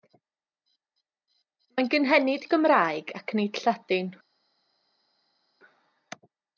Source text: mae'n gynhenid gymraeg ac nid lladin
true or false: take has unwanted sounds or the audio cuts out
false